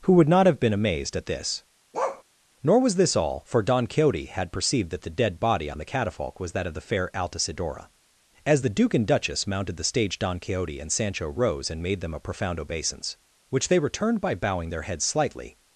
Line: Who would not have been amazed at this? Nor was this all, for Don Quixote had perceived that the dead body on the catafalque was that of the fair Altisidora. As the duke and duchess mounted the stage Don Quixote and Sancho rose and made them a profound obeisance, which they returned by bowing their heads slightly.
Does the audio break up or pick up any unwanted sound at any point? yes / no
yes